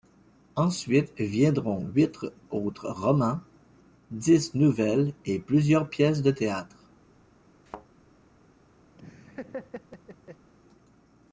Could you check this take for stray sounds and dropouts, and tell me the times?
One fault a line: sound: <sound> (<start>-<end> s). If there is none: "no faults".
sound: thud (7.7-7.9 s)
sound: laugh (8.9-10.5 s)